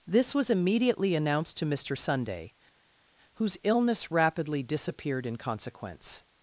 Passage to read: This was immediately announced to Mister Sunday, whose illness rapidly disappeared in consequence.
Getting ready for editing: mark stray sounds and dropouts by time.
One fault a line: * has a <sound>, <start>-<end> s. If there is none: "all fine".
all fine